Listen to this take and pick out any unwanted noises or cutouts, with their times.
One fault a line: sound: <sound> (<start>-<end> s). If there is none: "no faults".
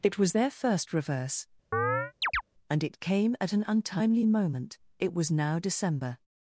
sound: chirp (1.7-2.4 s)